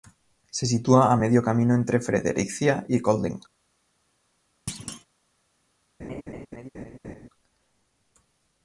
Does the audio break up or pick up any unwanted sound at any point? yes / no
yes